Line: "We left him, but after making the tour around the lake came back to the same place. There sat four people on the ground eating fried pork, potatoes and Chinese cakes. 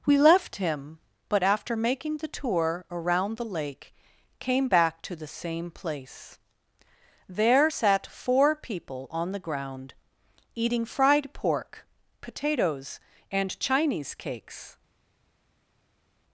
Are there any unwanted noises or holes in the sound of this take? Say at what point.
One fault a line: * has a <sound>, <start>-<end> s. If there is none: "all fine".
all fine